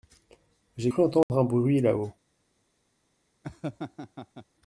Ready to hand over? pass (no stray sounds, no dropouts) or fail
fail